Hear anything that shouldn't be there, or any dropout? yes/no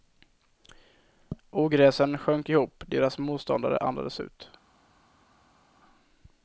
no